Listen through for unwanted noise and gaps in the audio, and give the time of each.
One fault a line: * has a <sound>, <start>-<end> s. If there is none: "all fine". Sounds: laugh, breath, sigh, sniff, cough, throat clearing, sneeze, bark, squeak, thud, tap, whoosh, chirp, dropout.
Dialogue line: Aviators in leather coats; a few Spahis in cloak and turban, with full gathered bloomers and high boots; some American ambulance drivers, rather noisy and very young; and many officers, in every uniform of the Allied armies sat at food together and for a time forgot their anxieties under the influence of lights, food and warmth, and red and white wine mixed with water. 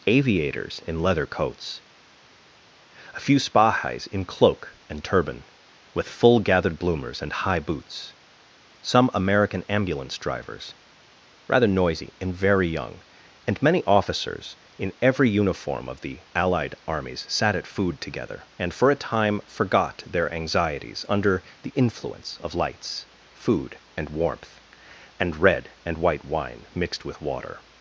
all fine